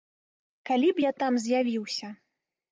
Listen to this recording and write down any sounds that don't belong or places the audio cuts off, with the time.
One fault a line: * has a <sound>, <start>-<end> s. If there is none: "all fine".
all fine